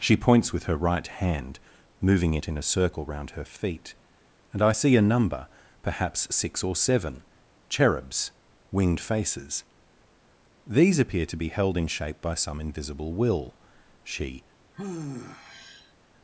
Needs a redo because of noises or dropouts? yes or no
yes